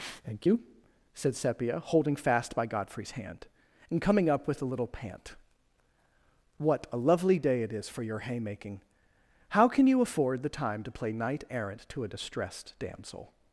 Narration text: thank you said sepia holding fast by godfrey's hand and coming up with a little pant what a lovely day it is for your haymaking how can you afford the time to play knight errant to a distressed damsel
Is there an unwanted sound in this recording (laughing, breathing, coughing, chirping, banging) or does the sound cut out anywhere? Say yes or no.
no